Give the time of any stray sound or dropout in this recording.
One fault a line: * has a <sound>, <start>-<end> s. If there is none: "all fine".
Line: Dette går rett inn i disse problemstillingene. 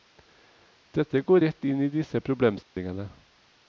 * has a dropout, 2.6-2.8 s